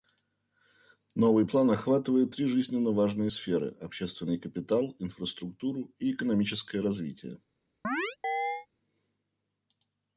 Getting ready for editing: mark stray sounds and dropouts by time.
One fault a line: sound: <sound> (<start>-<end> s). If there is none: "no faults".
sound: chirp (7.8-8.7 s)